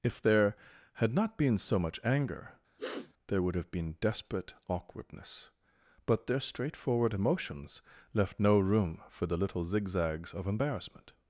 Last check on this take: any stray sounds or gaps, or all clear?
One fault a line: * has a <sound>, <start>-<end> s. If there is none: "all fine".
* has a sniff, 2.8-3.1 s